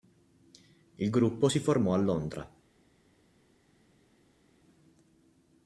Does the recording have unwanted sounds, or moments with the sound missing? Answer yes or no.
no